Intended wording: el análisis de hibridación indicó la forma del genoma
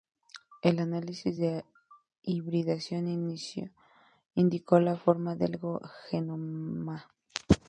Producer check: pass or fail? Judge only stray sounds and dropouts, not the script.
pass